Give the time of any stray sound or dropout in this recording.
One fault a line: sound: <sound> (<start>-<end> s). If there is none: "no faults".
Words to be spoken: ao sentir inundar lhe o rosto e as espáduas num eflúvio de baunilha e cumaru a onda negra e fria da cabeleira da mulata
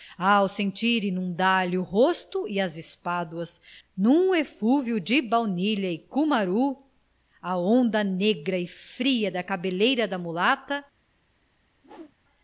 sound: whoosh (11.7-12.2 s)